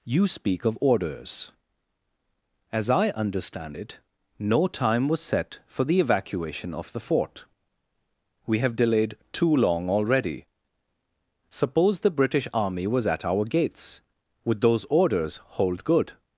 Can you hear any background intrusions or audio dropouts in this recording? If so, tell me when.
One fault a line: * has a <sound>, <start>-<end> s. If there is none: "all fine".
all fine